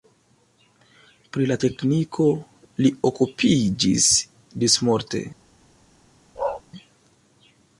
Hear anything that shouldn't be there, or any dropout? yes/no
yes